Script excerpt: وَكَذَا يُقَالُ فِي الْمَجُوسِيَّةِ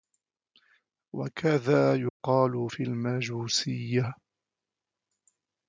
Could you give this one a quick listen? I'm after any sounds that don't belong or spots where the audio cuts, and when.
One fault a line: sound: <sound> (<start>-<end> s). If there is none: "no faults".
sound: dropout (2.1-2.2 s)